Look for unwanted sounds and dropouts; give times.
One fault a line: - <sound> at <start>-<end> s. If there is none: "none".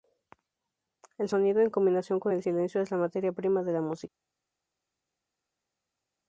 none